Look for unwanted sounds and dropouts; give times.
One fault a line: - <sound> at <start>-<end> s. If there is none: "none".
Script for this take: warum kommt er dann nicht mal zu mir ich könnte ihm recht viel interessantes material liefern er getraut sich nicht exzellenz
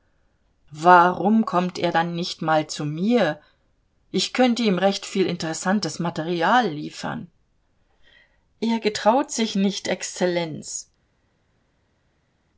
none